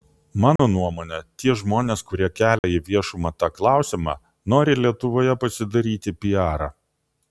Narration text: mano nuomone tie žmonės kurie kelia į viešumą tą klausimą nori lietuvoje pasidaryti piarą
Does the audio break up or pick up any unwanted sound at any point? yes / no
yes